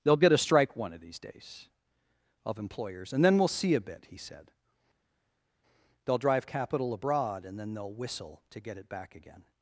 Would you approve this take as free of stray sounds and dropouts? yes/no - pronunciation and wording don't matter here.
yes